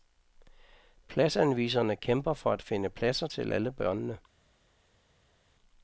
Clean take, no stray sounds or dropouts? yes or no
yes